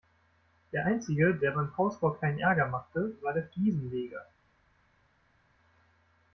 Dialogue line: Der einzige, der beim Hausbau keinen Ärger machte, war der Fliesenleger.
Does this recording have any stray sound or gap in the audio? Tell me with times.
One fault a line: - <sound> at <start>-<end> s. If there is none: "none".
none